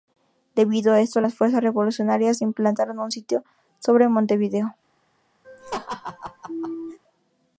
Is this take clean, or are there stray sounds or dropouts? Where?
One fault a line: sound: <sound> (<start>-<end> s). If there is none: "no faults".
sound: laugh (5.4-7.0 s)